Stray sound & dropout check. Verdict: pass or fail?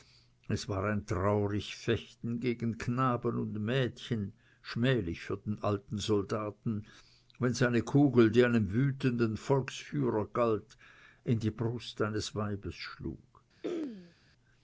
fail